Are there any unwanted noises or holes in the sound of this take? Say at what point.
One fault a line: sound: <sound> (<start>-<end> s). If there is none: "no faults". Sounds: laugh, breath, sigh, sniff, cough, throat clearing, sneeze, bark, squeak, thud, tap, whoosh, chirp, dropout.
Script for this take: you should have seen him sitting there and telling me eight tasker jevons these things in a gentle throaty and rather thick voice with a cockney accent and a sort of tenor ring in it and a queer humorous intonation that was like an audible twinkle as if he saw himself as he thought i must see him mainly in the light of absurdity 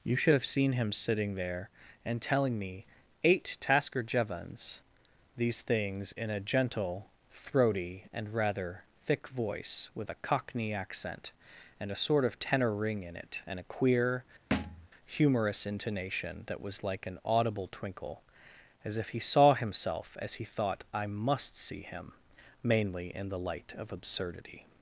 sound: thud (14.5-14.9 s)